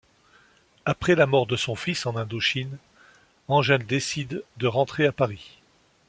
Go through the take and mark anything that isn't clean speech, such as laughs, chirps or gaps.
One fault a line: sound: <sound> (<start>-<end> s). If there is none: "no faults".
no faults